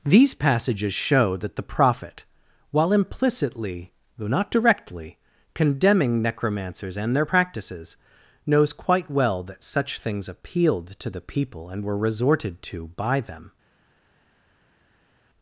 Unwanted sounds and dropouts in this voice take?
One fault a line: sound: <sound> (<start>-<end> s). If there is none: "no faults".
no faults